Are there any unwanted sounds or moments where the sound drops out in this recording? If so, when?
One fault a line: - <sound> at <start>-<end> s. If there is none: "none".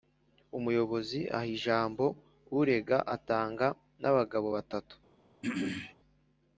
- throat clearing at 5.4-6.0 s